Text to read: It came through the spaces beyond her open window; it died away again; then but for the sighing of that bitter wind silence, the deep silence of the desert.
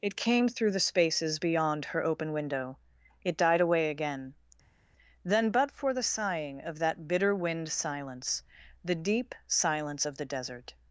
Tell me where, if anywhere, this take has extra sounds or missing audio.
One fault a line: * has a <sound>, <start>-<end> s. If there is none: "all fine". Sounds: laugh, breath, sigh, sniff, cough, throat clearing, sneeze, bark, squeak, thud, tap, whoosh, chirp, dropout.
all fine